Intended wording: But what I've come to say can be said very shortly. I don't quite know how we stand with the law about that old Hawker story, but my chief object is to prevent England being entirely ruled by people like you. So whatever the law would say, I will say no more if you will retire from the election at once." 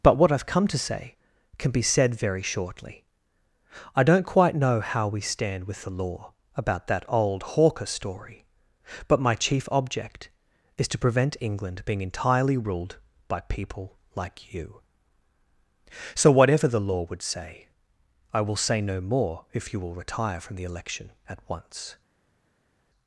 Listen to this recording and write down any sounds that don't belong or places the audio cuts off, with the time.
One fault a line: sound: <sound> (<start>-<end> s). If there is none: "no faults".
no faults